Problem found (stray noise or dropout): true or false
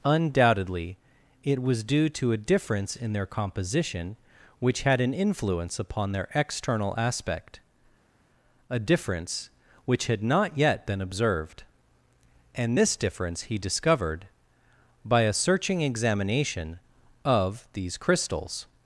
false